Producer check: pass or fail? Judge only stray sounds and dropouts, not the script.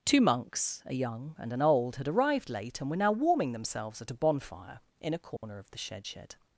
fail